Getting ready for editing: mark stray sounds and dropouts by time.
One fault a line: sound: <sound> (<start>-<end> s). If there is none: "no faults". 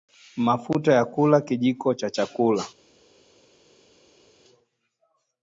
no faults